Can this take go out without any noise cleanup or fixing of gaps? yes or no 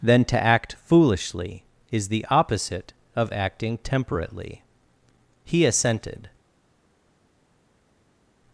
yes